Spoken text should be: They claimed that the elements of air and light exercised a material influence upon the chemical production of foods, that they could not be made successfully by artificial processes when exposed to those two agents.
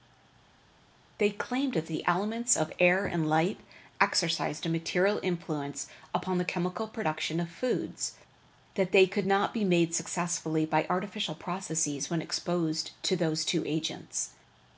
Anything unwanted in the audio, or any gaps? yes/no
no